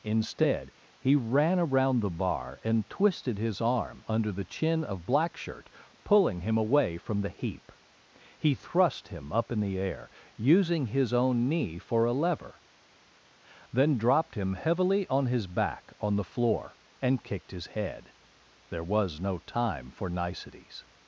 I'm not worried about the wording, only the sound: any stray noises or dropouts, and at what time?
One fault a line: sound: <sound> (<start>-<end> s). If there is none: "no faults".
no faults